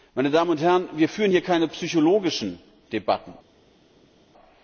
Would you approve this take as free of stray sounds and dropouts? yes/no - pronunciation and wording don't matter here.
yes